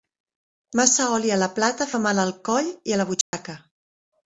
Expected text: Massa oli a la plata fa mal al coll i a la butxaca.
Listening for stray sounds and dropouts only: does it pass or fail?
fail